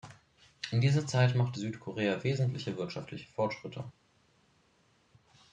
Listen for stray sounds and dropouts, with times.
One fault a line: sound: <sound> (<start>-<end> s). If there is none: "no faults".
no faults